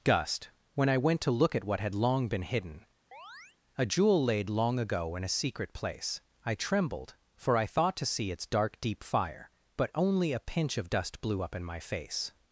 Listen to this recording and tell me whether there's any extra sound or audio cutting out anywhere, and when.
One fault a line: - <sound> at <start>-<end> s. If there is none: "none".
- chirp at 3.1-3.6 s